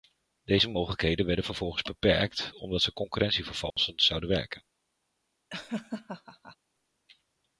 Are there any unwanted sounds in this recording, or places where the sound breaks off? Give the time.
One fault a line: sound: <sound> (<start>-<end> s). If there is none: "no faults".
sound: dropout (3.7-3.8 s)
sound: laugh (5.5-6.6 s)